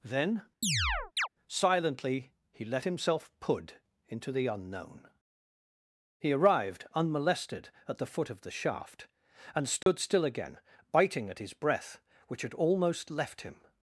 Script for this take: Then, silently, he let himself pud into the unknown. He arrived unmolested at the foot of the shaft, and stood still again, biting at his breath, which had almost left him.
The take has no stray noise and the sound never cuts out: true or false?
false